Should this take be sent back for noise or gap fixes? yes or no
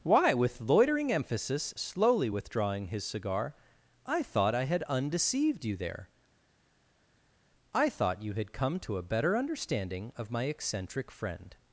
no